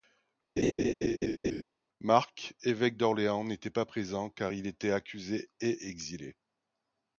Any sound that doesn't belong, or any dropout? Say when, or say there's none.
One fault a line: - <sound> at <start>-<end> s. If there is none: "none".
- laugh at 0.6-1.6 s